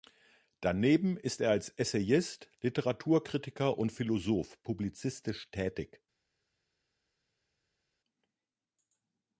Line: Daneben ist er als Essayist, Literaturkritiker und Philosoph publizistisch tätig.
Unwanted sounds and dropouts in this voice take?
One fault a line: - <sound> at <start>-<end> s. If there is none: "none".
none